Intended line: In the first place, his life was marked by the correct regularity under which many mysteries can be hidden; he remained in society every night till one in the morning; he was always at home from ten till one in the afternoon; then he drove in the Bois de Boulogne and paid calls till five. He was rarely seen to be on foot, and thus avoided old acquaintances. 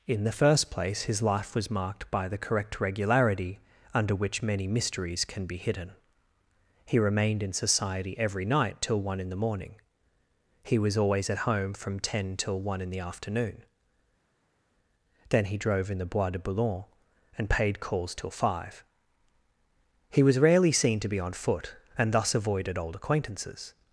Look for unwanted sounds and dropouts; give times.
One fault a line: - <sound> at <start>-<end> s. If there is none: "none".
none